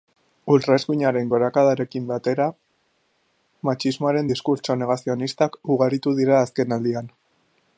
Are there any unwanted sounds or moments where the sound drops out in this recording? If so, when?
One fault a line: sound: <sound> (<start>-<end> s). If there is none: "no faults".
no faults